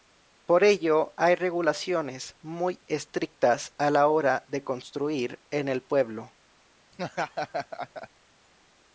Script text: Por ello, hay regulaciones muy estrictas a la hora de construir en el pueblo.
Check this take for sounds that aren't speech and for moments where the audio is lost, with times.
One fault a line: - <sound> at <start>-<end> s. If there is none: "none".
- laugh at 6.9-8.1 s